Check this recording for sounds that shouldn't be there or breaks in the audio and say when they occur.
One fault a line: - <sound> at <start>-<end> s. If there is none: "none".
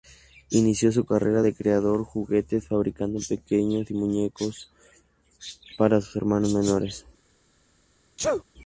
- sneeze at 8.2-8.4 s